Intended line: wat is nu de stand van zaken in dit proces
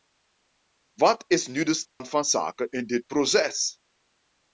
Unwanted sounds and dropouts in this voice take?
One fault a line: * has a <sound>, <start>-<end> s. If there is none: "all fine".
* has a dropout, 1.9-2.0 s